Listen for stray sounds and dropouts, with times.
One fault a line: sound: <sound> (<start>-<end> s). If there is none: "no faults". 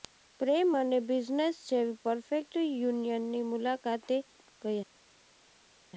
no faults